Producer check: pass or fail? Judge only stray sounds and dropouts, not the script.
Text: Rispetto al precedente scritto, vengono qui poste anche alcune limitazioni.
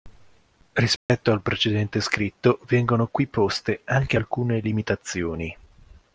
fail